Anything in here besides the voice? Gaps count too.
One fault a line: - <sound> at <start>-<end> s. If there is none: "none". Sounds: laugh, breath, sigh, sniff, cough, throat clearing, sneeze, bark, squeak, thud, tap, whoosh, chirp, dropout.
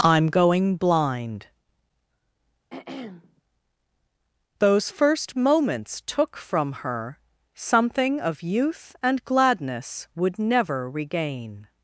- throat clearing at 2.7-3.4 s